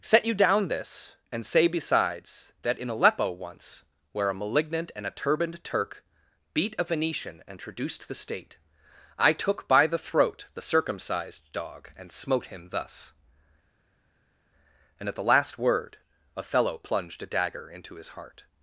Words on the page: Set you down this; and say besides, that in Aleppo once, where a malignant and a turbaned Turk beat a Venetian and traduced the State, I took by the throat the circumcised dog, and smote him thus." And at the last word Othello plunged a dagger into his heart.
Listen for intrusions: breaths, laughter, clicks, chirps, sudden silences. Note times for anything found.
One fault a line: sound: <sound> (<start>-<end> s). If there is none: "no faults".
no faults